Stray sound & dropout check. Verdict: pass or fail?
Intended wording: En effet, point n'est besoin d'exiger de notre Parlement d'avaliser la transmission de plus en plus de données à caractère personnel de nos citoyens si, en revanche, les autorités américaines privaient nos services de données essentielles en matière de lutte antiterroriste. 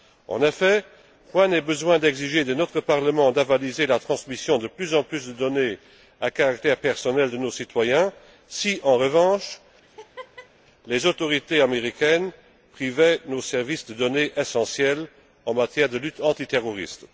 fail